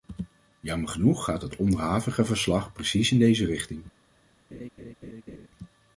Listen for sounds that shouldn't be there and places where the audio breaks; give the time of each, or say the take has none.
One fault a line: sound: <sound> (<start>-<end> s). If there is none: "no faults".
sound: laugh (4.5-5.5 s)